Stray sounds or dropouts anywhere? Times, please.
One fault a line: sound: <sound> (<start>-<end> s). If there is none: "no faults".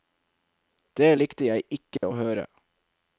sound: dropout (2.0-2.0 s)